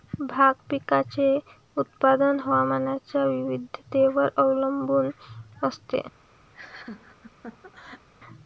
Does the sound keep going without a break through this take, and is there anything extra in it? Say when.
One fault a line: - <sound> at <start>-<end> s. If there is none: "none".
- laugh at 6.5-8.1 s